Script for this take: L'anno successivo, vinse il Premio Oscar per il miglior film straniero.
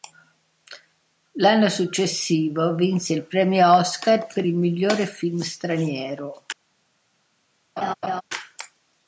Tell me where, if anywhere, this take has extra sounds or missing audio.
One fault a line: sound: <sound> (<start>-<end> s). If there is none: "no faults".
sound: laugh (7.8-8.2 s)